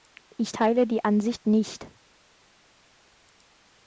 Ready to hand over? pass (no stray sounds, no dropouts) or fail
pass